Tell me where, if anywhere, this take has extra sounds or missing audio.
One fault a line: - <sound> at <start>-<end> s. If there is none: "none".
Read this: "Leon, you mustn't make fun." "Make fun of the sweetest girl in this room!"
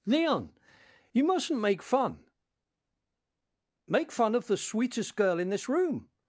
none